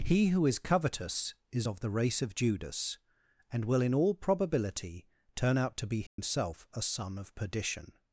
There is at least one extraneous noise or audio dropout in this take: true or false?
true